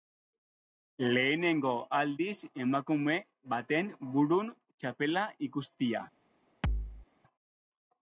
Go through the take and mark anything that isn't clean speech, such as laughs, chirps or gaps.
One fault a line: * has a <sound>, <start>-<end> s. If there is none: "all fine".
* has a thud, 6.6-7.1 s